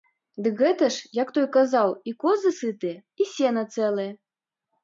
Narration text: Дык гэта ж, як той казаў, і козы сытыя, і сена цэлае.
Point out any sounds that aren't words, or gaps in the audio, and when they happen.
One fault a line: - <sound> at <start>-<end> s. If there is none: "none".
none